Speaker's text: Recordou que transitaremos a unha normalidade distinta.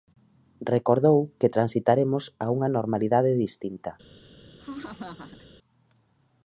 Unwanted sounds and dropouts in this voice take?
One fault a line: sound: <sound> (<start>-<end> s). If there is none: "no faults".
sound: laugh (4.6-5.5 s)